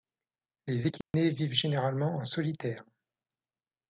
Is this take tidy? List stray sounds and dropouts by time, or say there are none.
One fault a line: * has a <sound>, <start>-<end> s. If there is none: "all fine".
* has a dropout, 1.0-1.1 s